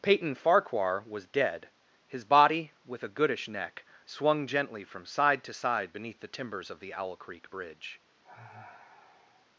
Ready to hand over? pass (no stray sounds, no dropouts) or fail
fail